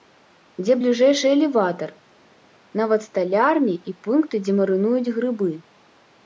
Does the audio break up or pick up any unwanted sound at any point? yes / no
no